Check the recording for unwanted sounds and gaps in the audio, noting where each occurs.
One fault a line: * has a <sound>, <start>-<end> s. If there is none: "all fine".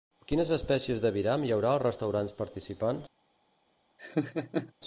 * has a laugh, 4.0-4.7 s